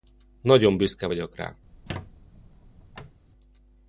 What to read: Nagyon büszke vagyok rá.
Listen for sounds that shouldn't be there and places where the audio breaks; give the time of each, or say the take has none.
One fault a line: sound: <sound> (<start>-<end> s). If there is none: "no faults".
sound: squeak (1.7-3.2 s)